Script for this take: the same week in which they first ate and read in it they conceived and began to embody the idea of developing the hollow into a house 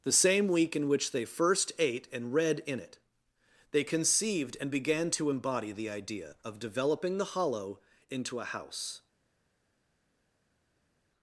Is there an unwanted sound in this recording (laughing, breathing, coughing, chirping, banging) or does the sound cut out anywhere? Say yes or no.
no